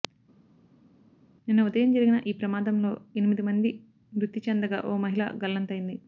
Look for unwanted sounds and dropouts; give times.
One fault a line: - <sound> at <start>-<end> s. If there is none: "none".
none